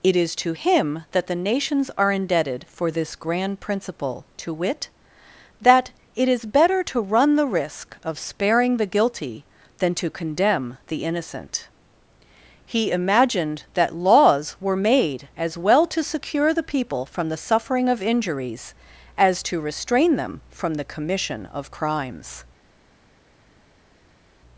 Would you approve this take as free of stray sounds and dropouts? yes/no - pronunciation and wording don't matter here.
yes